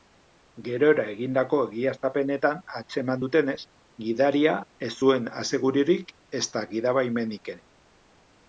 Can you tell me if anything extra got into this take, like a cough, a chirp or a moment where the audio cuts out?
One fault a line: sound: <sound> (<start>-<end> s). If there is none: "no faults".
no faults